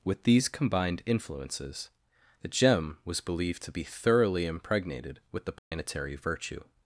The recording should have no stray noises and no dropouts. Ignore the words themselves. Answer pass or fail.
fail